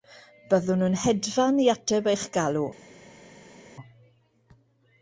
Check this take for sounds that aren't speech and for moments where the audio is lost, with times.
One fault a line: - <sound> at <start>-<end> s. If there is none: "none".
none